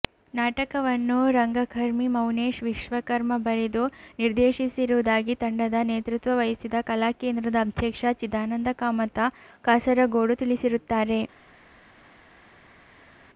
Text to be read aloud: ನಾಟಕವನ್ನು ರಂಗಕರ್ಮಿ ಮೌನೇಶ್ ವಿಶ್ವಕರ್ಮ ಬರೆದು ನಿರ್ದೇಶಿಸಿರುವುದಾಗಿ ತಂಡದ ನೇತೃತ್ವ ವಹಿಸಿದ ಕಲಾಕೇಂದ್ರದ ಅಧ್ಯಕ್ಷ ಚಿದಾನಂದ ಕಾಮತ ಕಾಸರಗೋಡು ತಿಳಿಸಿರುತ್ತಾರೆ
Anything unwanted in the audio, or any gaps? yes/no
no